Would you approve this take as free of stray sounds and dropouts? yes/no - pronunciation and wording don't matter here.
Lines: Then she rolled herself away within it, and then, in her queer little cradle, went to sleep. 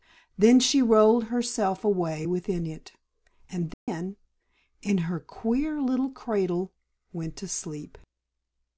no